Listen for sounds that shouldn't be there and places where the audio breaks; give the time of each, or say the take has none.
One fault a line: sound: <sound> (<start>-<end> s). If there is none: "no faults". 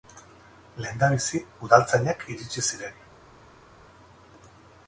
no faults